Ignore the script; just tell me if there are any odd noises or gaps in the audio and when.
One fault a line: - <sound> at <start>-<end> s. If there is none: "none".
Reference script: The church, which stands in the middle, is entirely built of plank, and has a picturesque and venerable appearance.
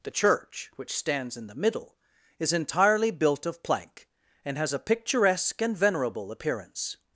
none